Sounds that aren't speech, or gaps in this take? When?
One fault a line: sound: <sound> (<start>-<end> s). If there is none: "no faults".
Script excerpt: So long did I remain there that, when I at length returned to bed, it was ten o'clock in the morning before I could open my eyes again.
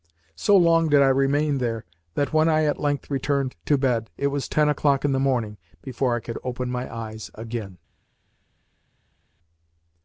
no faults